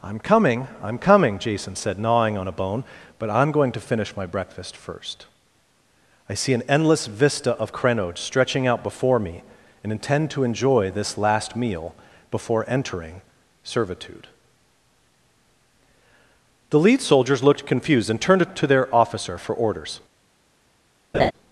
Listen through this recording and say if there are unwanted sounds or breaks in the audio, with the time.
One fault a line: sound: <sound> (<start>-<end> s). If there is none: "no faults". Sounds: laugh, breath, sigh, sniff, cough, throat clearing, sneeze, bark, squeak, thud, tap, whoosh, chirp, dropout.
sound: laugh (21.1-21.3 s)